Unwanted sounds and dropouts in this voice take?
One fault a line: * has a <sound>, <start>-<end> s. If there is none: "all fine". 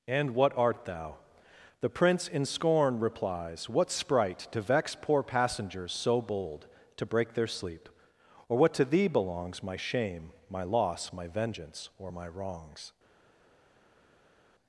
all fine